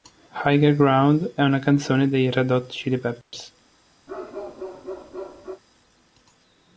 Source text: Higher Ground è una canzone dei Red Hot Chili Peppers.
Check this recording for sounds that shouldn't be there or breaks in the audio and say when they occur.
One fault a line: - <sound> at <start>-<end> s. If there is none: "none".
- dropout at 3.2-3.3 s
- bark at 4.1-5.6 s